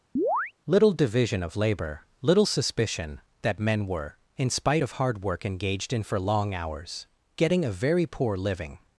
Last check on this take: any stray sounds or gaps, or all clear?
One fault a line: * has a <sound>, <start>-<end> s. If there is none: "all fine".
* has a chirp, 0.2-0.5 s